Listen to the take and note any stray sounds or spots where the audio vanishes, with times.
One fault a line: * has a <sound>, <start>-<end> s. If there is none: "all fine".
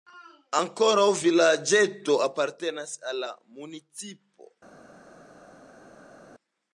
all fine